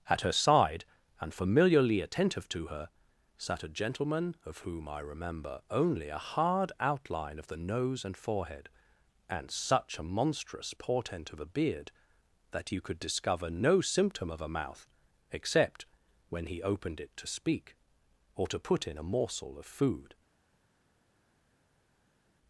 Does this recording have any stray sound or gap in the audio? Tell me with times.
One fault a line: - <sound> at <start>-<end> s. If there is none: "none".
none